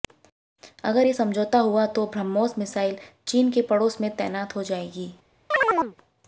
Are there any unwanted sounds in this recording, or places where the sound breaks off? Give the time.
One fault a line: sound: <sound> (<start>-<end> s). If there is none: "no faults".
sound: chirp (5.5-6.0 s)